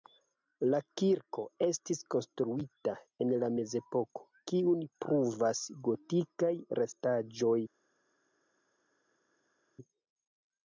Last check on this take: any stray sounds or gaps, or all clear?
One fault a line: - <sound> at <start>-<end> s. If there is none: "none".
none